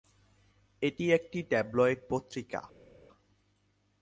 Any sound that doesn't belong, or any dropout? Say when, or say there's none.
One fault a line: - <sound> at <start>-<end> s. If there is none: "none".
none